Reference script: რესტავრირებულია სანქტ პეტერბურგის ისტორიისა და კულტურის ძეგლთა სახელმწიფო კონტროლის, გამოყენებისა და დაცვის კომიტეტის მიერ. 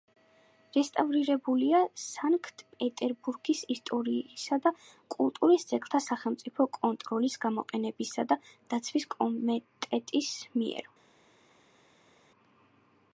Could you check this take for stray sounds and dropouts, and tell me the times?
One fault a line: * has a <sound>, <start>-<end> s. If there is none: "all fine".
all fine